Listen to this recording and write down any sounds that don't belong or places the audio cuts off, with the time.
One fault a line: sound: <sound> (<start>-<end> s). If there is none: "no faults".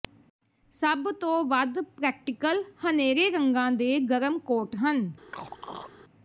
sound: throat clearing (5.3-5.9 s)